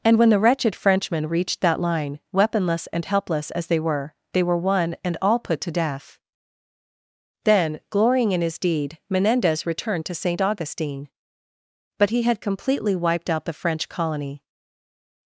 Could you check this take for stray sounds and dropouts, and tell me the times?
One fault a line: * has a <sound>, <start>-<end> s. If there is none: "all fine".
all fine